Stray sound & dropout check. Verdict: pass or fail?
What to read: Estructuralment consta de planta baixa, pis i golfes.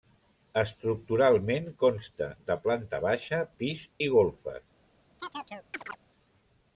fail